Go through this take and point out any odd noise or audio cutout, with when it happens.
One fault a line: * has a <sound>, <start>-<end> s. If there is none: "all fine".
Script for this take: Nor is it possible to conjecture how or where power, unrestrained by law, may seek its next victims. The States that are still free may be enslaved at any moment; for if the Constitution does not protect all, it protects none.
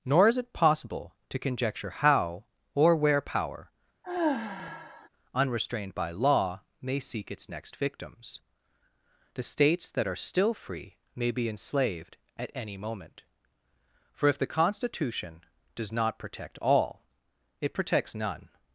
* has a sigh, 4.0-5.1 s